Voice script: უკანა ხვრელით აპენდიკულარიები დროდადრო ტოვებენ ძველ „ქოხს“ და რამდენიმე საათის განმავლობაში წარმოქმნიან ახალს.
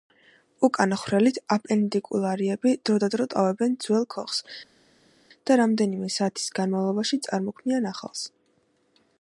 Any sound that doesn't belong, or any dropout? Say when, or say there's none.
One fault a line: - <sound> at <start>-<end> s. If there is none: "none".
none